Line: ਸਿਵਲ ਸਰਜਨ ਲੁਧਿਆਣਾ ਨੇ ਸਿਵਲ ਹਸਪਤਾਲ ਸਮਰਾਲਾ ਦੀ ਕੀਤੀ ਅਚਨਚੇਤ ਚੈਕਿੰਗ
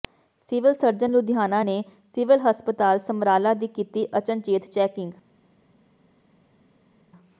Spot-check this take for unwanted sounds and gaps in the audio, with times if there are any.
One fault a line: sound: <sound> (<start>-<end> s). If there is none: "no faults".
no faults